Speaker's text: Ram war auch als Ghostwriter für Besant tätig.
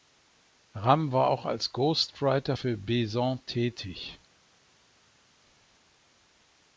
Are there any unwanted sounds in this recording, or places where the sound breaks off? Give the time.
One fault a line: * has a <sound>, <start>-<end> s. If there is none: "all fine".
all fine